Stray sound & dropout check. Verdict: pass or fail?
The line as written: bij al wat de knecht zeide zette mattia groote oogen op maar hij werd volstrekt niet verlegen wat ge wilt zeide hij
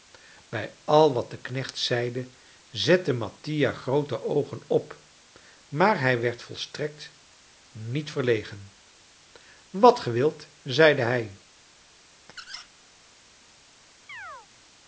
fail